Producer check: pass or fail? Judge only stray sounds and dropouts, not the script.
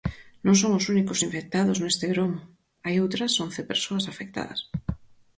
pass